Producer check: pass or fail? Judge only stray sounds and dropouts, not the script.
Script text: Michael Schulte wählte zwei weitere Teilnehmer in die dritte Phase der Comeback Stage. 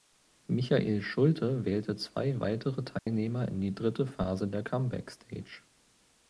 fail